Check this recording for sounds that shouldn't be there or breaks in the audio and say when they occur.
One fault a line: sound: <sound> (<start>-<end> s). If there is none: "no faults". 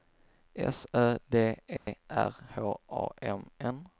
sound: dropout (1.8-1.9 s)